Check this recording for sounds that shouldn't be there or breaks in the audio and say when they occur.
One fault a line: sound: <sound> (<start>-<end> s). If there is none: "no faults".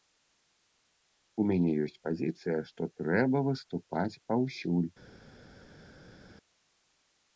no faults